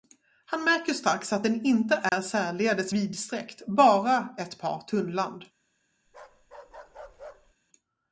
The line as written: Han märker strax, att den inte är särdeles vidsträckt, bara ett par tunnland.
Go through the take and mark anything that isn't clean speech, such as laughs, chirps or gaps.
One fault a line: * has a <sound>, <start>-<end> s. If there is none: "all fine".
* has a dropout, 2.1-2.1 s
* has a bark, 6.1-7.5 s